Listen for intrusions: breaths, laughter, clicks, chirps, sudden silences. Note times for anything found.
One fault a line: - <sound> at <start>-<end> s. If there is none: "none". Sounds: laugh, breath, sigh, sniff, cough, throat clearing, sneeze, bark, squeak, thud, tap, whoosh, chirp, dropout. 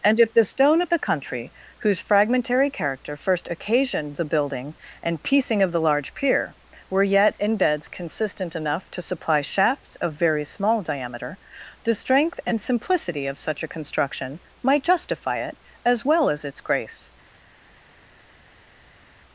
none